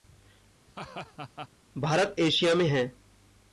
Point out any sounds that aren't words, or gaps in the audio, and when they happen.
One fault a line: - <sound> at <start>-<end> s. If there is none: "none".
- laugh at 0.7-1.5 s